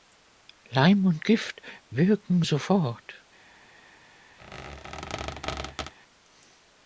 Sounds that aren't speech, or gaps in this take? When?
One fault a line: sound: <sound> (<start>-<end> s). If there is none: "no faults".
sound: squeak (4.4-5.9 s)